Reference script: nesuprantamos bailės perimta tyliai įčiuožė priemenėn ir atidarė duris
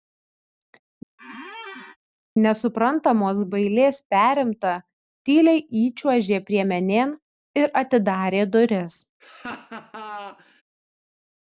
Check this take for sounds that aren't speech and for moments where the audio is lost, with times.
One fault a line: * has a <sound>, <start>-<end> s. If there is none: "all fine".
* has a squeak, 1.2-2.0 s
* has a laugh, 9.2-10.6 s